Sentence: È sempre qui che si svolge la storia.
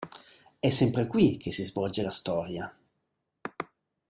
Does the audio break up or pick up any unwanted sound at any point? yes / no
no